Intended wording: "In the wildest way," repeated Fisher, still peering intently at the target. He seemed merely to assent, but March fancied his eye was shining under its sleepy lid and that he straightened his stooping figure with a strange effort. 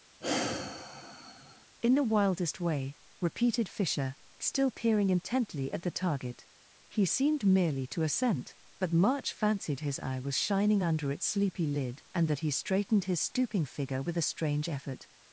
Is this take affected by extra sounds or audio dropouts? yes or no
yes